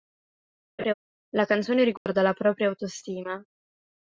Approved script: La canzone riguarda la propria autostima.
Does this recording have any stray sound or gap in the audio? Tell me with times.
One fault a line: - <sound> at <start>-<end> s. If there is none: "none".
- laugh at 0.8-0.9 s
- dropout at 2.0-2.1 s